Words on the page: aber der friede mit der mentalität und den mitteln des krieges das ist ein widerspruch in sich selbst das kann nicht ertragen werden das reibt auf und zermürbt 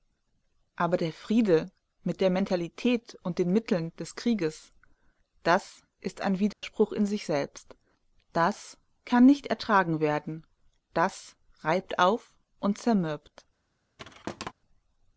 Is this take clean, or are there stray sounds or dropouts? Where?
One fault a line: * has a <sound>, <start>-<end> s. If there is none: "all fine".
* has a dropout, 6.5-6.6 s
* has a thud, 14.0-14.5 s